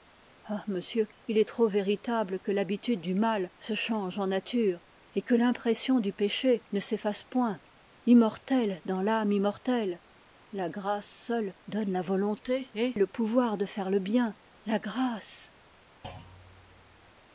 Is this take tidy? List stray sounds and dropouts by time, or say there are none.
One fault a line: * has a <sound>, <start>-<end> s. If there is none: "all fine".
* has a thud, 16.0-17.1 s